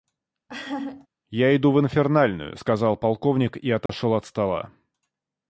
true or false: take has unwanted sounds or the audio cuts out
true